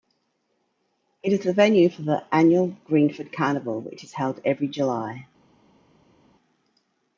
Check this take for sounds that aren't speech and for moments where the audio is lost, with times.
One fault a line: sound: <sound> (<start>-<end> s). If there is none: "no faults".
no faults